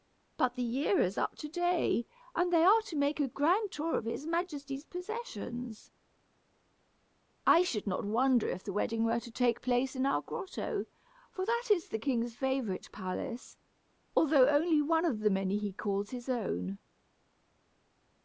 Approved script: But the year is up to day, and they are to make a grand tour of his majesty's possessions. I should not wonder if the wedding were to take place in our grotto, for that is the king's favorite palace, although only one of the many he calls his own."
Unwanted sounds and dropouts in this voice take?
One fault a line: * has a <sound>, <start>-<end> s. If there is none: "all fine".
all fine